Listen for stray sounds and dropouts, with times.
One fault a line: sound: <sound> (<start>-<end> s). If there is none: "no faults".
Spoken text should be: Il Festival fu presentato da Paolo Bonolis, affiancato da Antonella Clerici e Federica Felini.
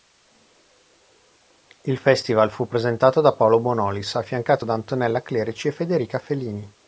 no faults